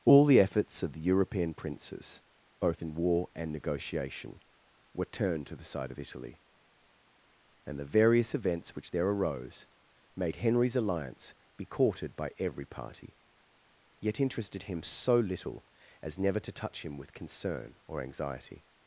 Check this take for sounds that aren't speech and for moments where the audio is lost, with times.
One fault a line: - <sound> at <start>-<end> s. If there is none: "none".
none